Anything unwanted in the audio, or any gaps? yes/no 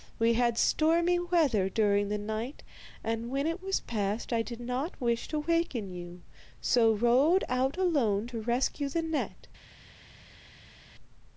no